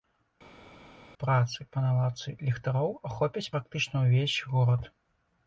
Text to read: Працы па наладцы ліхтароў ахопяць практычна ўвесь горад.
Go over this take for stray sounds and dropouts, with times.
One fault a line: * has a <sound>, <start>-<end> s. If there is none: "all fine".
all fine